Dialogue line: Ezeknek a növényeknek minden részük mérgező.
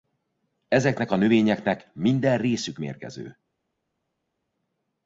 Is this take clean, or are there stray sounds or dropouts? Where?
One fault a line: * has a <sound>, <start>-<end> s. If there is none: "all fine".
all fine